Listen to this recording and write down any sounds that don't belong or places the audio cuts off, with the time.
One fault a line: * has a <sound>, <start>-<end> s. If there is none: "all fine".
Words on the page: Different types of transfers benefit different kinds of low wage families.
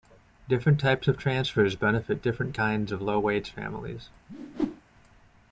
* has a whoosh, 4.3-4.8 s